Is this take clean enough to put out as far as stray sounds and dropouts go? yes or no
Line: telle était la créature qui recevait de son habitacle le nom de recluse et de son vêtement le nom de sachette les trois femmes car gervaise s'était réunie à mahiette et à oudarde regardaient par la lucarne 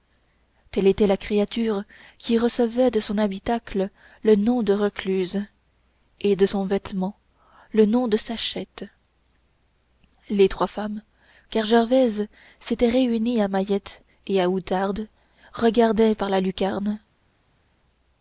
yes